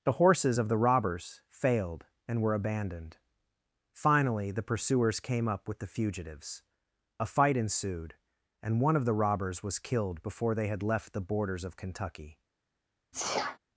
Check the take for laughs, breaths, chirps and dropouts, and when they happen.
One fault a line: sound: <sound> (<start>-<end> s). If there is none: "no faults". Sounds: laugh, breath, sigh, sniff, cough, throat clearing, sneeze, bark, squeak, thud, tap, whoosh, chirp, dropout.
sound: sneeze (13.1-13.6 s)